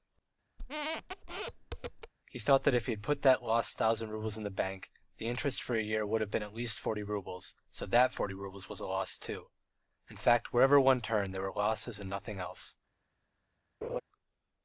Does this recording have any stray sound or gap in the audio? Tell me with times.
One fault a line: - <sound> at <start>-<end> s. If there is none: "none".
- squeak at 0.6-2.1 s
- laugh at 13.8-14.0 s